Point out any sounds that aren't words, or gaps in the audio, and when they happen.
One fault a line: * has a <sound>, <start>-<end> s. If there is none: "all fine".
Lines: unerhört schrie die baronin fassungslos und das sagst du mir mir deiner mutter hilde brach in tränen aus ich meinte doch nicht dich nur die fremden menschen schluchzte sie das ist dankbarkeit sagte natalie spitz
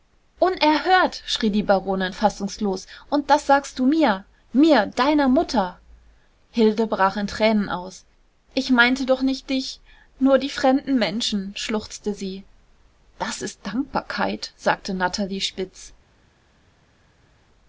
all fine